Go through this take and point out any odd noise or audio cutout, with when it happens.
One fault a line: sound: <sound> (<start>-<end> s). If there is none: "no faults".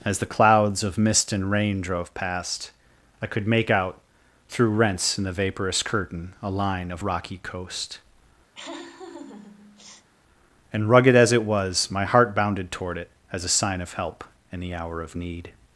sound: laugh (8.5-10.1 s)